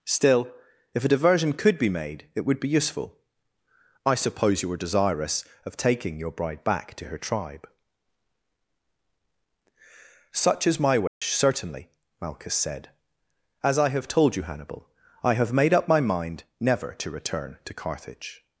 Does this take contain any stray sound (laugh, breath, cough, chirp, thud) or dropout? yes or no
yes